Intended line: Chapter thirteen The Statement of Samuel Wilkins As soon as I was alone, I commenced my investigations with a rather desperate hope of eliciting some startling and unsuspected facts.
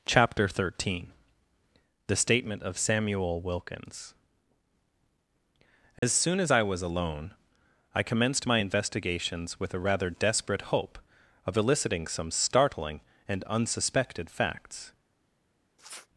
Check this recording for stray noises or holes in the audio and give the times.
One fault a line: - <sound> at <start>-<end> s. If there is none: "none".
- dropout at 6.0-6.0 s
- sniff at 15.8-16.1 s